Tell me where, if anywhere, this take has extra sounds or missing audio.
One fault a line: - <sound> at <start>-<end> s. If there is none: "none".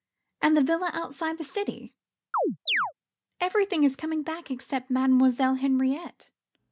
- chirp at 2.3-2.9 s